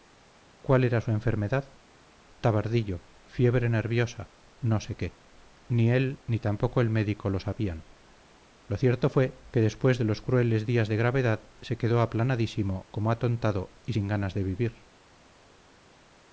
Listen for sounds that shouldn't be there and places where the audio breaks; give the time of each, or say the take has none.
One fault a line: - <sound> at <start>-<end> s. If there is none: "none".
none